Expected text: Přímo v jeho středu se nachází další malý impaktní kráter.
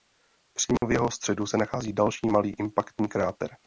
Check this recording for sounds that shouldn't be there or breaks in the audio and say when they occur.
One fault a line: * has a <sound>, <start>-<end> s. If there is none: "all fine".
* has a dropout, 0.8-0.8 s